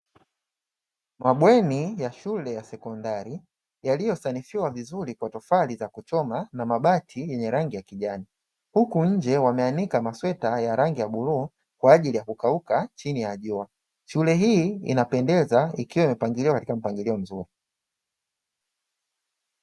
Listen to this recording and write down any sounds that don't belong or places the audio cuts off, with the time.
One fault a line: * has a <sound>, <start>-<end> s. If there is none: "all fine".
all fine